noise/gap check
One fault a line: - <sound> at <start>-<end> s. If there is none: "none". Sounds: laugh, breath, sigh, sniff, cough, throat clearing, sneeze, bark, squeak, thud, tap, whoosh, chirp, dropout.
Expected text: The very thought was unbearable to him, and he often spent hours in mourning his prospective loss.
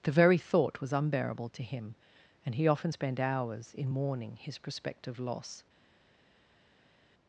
none